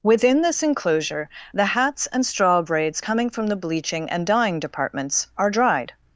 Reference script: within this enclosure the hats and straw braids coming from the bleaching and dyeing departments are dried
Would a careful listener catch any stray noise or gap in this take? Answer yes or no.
no